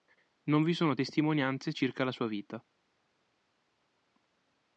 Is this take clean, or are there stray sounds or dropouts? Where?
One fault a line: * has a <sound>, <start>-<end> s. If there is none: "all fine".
all fine